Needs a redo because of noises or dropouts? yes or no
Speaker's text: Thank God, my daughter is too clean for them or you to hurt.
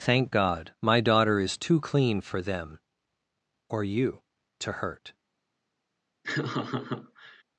yes